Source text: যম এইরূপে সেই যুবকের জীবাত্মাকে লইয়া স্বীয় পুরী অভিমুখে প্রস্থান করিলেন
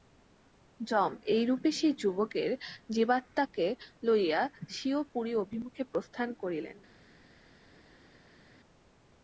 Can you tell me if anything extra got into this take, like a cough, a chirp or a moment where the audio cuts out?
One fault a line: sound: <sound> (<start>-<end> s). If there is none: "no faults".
no faults